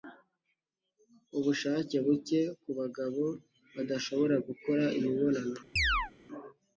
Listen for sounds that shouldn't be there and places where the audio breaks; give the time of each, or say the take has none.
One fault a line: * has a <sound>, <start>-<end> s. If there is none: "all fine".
* has a chirp, 5.8-6.1 s